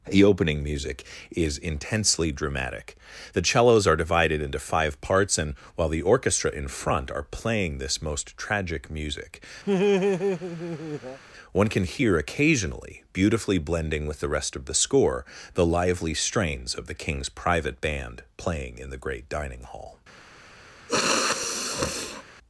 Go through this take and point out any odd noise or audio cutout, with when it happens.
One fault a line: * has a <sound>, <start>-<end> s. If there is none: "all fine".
* has a laugh, 9.7-11.2 s
* has a sniff, 20.9-22.2 s